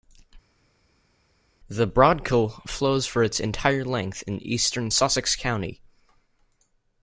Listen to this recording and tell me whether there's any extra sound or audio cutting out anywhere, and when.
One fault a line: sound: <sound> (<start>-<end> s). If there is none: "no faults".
no faults